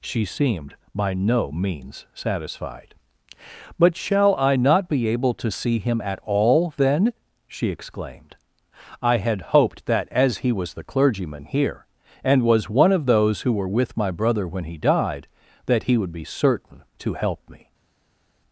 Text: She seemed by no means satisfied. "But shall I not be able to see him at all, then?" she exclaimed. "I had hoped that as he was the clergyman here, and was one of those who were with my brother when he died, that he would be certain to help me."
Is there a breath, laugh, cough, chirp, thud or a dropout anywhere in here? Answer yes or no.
no